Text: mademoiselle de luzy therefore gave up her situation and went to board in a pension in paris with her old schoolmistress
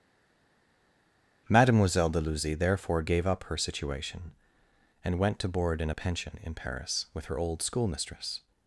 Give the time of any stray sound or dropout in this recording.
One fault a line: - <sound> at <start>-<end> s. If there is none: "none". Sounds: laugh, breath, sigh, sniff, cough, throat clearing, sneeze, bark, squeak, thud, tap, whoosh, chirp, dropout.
none